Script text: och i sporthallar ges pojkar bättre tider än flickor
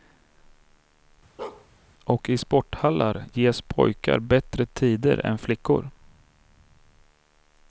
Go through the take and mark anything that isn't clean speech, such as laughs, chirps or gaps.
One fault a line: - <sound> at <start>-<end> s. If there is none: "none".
- bark at 1.4-1.7 s